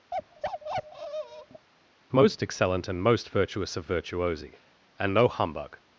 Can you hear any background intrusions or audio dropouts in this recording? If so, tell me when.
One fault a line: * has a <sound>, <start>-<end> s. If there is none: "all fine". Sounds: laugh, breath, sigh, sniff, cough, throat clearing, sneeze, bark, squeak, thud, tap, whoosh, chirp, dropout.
* has a bark, 0.1-1.7 s